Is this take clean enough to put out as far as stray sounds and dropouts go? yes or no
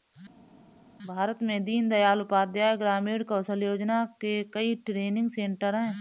yes